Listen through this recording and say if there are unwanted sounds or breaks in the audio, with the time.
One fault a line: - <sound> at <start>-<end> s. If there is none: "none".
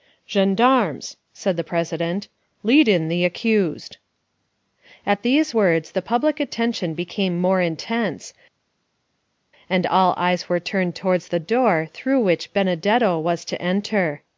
none